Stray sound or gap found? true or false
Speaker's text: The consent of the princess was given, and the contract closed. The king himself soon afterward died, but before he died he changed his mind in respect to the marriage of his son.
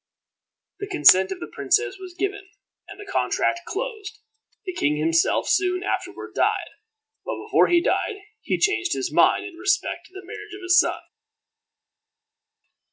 false